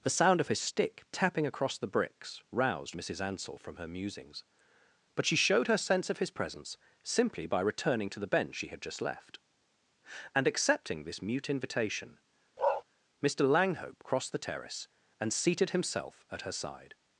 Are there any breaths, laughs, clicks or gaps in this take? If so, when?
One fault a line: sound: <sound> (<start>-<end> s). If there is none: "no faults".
sound: bark (12.6-12.8 s)